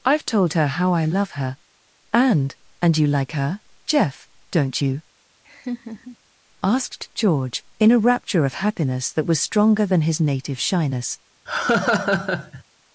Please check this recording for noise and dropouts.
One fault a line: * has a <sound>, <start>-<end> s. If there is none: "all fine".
* has a laugh, 5.4-6.2 s
* has a laugh, 11.5-12.6 s